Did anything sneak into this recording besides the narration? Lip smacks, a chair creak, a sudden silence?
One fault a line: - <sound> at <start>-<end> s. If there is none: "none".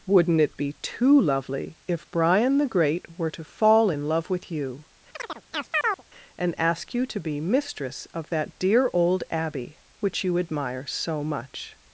- chirp at 5.1-6.0 s